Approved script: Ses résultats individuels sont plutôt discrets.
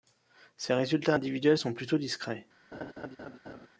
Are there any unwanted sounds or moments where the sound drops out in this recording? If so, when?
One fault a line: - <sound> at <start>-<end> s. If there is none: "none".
- laugh at 2.7-3.7 s